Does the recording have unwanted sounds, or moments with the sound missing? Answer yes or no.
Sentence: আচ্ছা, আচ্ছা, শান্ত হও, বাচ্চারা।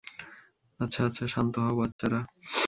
yes